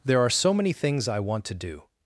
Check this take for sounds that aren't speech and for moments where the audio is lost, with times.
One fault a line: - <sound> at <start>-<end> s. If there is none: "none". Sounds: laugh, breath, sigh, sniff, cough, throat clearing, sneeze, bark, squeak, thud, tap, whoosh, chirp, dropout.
none